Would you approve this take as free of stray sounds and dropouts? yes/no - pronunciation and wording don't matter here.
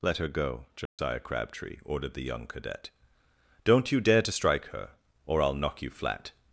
no